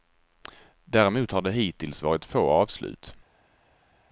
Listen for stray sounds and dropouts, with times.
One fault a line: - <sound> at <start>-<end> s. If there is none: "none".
none